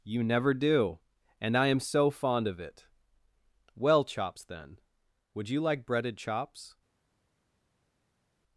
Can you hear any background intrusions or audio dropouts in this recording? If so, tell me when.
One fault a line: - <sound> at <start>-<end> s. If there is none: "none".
none